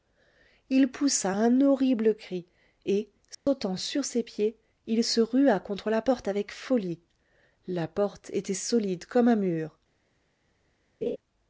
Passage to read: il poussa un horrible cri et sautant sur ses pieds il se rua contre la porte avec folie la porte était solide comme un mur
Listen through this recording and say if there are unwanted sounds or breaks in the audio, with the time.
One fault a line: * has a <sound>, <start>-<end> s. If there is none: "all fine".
* has a dropout, 3.3-3.5 s
* has a laugh, 11.0-11.2 s